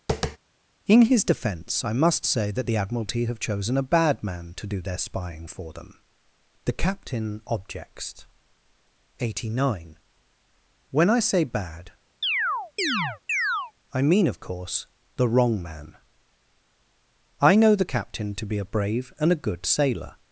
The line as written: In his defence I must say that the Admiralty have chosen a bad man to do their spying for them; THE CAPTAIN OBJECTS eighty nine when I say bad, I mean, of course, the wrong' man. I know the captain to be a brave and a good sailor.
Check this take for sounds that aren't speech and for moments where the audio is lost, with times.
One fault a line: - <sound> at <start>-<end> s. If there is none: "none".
- tap at 0.1-0.4 s
- chirp at 12.2-13.7 s